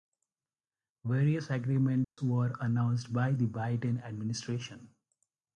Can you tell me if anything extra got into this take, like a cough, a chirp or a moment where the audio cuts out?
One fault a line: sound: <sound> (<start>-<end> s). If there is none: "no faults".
sound: dropout (2.0-2.2 s)